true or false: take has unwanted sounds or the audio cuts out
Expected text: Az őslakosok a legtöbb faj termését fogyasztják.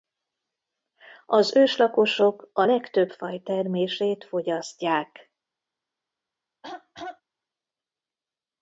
true